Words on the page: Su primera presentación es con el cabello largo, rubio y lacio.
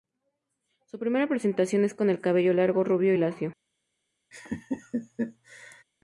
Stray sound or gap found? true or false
true